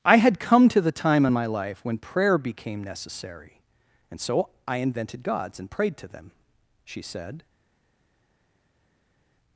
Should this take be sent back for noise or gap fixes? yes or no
no